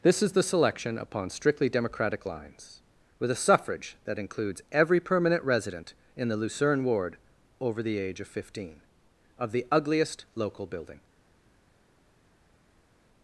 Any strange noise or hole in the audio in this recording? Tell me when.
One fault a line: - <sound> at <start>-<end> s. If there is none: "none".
none